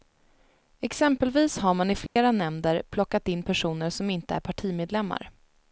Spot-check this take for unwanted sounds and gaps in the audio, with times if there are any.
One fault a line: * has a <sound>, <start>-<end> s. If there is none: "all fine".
* has a dropout, 2.1-2.2 s